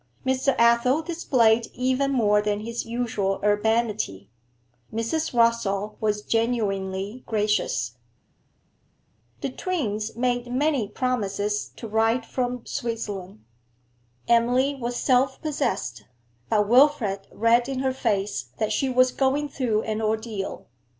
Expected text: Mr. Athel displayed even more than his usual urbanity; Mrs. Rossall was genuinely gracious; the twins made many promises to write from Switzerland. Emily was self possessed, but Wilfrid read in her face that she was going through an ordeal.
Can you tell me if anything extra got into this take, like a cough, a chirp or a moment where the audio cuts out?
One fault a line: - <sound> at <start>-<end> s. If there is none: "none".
none